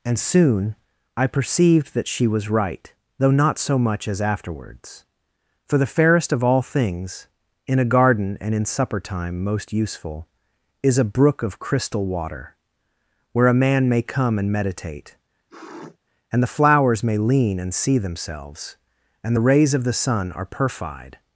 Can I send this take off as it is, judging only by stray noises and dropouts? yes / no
no